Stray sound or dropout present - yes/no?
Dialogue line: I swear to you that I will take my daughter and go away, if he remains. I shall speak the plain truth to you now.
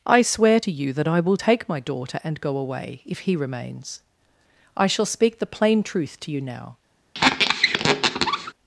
yes